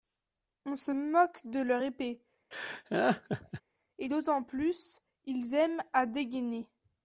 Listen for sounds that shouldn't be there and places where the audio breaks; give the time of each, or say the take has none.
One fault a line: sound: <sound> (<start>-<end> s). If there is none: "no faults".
sound: laugh (2.5-3.6 s)